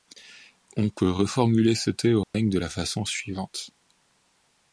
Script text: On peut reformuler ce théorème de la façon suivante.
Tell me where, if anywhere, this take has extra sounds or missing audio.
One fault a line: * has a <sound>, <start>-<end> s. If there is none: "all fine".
* has a dropout, 2.2-2.3 s